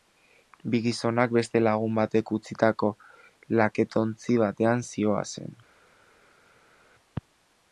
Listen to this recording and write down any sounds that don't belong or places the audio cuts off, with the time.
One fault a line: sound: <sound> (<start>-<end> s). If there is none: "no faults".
no faults